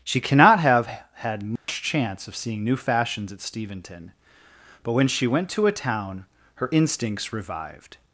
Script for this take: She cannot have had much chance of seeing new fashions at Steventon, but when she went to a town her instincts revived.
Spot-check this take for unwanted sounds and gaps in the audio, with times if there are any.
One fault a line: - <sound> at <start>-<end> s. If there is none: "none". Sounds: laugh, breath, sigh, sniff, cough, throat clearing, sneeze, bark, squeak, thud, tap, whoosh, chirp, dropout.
- dropout at 1.6-1.7 s